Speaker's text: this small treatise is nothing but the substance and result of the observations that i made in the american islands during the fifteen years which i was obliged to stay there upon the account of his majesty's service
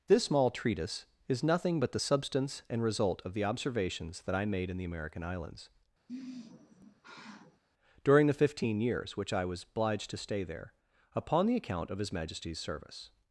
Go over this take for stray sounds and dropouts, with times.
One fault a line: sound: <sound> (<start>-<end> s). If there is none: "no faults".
sound: sigh (6.1-7.6 s)